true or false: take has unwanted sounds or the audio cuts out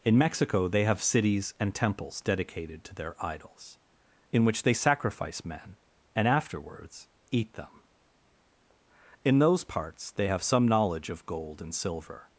false